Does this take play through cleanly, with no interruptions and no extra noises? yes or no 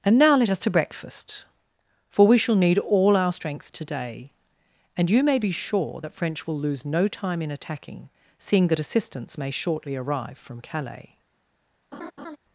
no